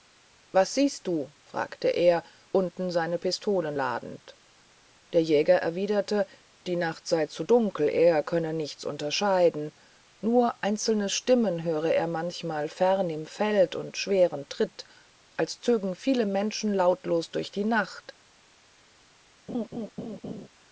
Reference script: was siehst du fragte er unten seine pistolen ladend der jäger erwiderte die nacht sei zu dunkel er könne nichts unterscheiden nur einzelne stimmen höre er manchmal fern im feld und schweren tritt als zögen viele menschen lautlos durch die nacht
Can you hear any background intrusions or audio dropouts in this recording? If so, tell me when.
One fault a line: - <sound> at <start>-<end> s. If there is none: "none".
- laugh at 19.5-20.5 s